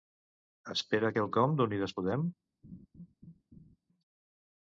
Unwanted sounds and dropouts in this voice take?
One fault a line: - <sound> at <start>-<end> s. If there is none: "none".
- laugh at 2.6-3.8 s